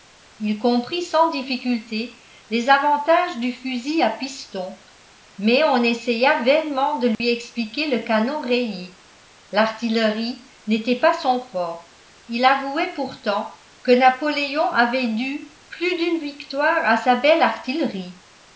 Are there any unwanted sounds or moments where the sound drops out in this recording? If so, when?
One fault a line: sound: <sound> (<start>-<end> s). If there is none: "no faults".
sound: dropout (7.1-7.2 s)